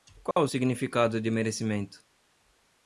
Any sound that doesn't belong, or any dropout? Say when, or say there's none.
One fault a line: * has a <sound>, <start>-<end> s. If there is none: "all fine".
* has a dropout, 0.3-0.4 s